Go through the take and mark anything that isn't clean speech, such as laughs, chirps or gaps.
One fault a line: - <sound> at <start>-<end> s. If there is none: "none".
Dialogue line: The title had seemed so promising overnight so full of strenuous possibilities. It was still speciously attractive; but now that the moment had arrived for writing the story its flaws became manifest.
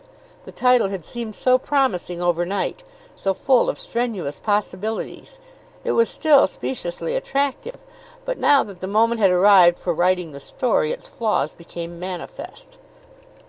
- dropout at 7.7-7.7 s